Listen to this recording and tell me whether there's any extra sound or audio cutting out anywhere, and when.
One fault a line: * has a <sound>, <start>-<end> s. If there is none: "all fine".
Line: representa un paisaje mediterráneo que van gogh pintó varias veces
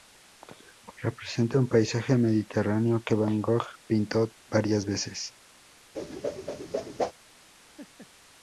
* has a whoosh, 5.9-7.1 s
* has a laugh, 7.8-8.1 s